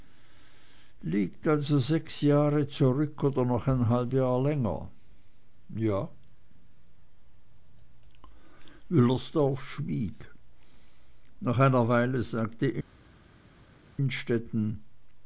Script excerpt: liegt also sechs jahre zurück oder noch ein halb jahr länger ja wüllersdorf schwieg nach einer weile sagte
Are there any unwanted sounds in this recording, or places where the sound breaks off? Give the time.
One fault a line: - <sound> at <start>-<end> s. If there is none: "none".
none